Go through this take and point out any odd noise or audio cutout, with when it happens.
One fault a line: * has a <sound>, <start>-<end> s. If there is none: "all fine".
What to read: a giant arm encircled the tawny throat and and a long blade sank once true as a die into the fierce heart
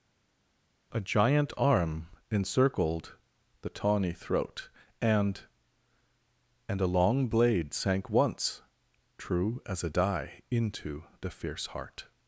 all fine